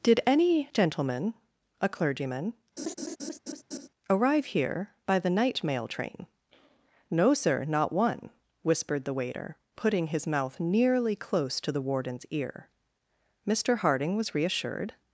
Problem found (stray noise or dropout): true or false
true